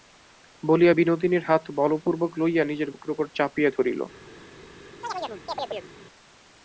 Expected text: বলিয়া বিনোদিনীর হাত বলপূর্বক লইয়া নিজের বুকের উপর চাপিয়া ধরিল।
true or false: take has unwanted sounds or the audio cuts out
true